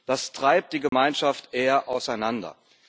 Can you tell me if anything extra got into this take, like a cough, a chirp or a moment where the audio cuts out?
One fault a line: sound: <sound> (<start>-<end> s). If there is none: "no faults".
sound: dropout (0.9-0.9 s)